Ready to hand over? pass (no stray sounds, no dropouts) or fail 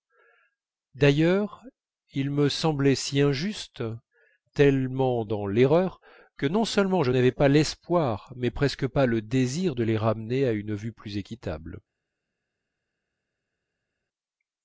pass